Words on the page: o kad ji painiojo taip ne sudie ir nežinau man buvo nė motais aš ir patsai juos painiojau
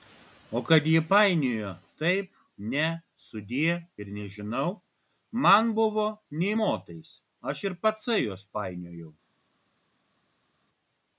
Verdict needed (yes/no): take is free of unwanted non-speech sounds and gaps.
yes